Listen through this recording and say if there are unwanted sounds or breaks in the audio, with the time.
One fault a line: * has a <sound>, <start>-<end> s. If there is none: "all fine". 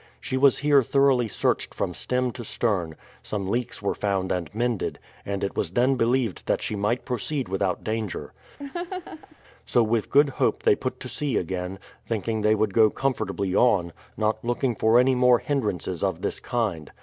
* has a laugh, 8.6-9.4 s